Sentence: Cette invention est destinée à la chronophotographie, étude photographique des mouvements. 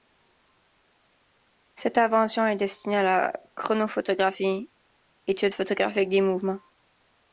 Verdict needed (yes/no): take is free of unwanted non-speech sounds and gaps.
yes